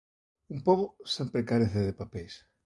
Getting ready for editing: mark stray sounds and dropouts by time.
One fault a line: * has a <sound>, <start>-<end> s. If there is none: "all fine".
all fine